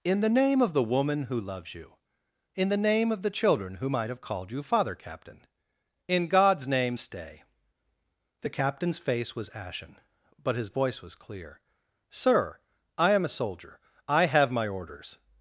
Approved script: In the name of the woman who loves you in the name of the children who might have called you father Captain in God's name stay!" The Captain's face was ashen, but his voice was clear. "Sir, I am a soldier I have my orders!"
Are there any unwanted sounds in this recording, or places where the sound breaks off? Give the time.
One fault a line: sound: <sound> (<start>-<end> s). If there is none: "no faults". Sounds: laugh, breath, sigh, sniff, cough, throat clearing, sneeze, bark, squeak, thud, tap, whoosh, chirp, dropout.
no faults